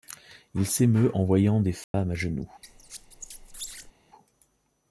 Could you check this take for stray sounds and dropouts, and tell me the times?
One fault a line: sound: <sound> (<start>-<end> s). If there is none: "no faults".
sound: dropout (1.8-1.9 s)
sound: squeak (2.6-3.9 s)